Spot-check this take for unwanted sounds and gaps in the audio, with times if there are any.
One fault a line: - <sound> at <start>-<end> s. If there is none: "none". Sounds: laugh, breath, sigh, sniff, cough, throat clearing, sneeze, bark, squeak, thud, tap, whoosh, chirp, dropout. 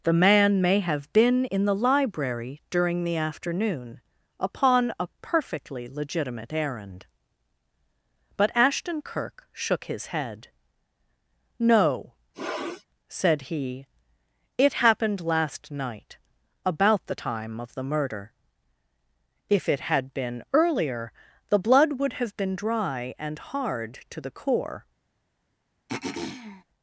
- sniff at 12.3-12.9 s
- throat clearing at 25.9-26.6 s